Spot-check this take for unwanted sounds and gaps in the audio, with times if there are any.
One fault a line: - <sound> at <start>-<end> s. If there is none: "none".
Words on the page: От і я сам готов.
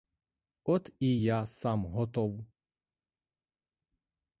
none